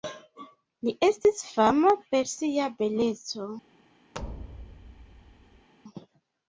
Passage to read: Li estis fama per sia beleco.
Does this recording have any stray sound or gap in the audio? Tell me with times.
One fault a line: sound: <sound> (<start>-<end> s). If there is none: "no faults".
sound: thud (4.1-5.7 s)